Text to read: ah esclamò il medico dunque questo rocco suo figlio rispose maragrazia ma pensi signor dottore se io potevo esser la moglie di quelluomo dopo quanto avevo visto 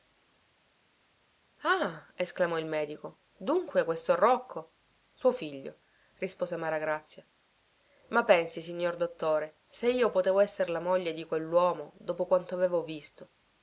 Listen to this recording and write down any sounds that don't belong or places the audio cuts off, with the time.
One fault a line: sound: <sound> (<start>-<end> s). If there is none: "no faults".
no faults